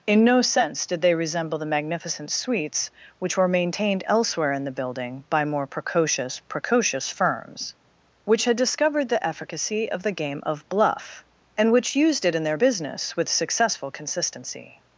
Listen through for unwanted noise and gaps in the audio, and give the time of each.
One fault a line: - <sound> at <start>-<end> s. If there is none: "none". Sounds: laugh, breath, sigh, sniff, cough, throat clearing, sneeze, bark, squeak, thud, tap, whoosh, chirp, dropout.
none